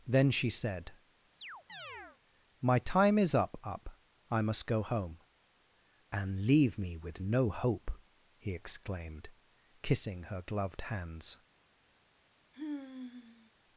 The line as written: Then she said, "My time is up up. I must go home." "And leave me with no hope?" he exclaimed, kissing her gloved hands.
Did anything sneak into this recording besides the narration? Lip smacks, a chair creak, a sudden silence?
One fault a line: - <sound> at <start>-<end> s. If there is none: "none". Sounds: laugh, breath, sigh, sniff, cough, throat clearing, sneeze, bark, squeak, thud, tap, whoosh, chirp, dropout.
- chirp at 1.4-2.2 s
- sigh at 12.5-13.5 s